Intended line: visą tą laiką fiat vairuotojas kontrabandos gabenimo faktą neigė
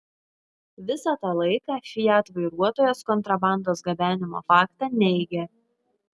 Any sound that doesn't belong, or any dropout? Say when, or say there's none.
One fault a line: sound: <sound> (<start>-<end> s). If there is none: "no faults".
no faults